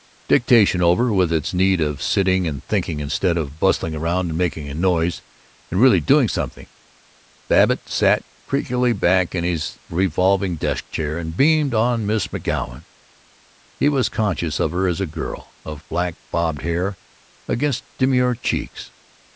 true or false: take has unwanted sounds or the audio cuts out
false